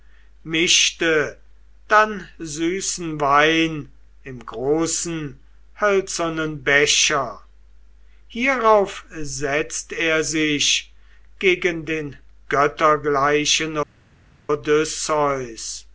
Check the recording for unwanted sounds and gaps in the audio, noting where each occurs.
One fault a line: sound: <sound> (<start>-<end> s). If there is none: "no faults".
no faults